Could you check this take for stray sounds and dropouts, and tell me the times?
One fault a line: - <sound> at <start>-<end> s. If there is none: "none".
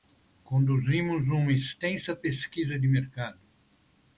none